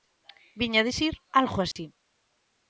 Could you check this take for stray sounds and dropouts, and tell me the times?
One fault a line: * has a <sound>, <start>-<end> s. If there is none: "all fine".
* has a dropout, 1.7-1.8 s